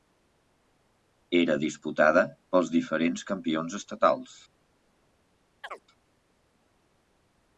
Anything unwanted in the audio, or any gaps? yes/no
yes